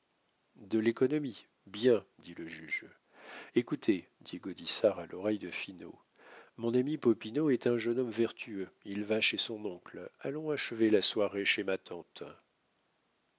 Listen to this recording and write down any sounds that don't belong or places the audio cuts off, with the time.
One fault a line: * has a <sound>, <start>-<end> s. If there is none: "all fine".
all fine